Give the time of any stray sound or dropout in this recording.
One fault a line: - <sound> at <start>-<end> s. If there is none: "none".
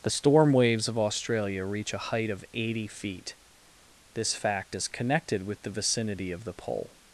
none